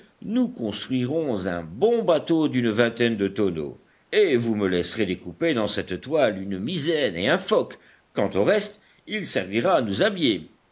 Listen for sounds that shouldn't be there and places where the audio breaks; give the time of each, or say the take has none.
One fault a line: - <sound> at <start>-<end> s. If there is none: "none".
none